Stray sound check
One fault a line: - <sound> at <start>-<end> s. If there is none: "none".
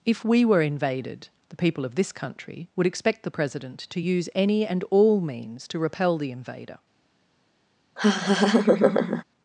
- laugh at 8.0-9.2 s